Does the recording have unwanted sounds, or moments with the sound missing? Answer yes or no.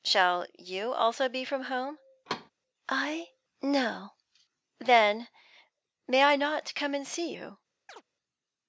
yes